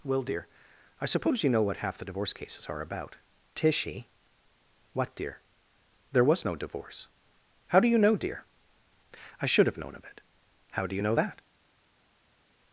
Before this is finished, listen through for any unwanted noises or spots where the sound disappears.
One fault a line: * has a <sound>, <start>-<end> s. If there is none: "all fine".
all fine